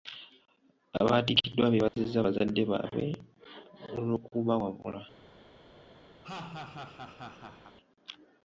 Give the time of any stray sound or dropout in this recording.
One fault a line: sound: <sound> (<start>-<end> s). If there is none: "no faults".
sound: dropout (1.9-1.9 s)
sound: laugh (6.2-7.8 s)